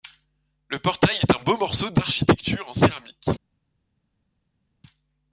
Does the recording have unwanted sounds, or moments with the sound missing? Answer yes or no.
no